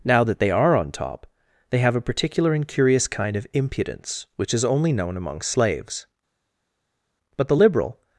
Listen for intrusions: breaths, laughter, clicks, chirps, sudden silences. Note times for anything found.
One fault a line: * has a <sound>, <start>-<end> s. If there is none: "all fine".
all fine